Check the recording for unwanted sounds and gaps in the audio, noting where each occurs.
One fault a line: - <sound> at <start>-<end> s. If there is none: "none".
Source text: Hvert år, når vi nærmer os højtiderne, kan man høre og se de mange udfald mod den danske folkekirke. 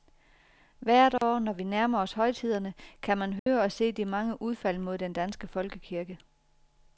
- dropout at 1.2-1.2 s
- dropout at 3.4-3.5 s